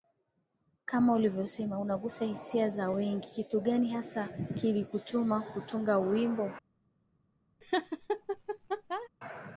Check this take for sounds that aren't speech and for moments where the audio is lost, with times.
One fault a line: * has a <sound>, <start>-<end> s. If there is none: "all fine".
* has a laugh, 7.6-9.1 s